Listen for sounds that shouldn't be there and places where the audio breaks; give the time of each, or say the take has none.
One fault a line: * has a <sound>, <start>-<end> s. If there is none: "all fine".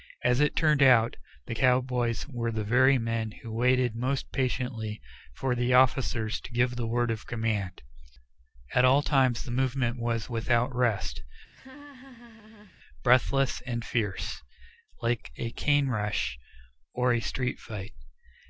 * has a laugh, 11.5-12.8 s